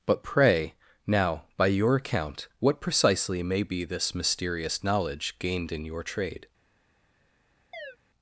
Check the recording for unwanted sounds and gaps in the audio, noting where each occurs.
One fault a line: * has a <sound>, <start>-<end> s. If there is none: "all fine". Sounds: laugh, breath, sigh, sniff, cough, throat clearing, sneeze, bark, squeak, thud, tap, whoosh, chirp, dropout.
* has a chirp, 7.7-8.0 s